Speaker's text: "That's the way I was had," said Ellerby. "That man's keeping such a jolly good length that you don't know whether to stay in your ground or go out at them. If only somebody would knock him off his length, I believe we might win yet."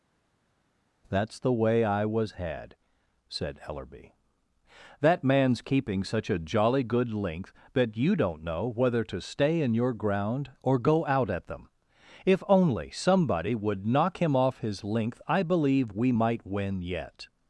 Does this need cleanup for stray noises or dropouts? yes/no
no